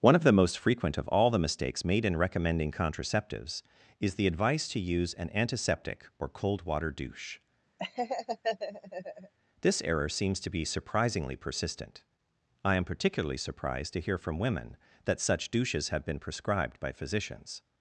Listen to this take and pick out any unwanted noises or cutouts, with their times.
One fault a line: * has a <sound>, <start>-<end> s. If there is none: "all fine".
* has a laugh, 7.8-9.3 s